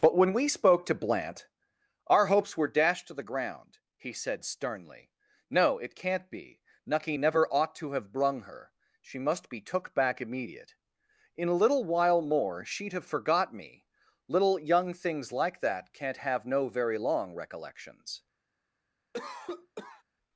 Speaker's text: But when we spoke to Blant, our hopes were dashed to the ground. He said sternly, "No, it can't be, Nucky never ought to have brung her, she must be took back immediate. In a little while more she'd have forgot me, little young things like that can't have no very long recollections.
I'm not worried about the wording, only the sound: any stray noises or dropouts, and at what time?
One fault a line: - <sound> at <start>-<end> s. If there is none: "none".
- cough at 19.1-20.0 s